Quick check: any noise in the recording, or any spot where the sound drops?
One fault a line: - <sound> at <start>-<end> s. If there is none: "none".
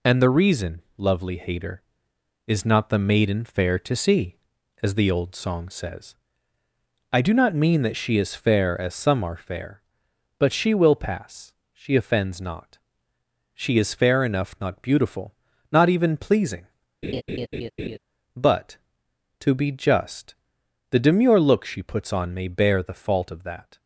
- laugh at 17.0-18.0 s